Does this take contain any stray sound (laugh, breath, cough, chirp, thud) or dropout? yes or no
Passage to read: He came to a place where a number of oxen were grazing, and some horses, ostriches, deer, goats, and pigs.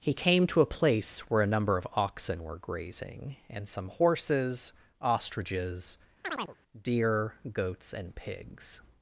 yes